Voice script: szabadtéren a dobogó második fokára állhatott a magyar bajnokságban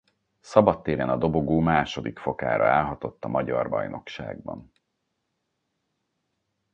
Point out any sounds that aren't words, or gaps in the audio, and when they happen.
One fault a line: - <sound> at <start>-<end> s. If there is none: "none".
none